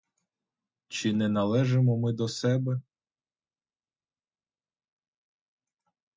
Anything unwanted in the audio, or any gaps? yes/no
no